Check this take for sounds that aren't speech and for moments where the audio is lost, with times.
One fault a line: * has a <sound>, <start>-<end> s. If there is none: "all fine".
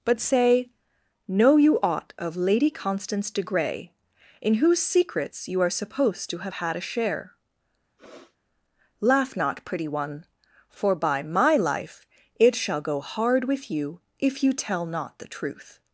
* has a sniff, 8.0-8.4 s